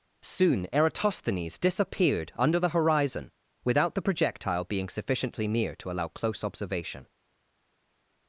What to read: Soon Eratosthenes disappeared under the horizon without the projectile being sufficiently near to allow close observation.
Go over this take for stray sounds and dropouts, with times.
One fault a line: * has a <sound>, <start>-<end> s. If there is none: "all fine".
all fine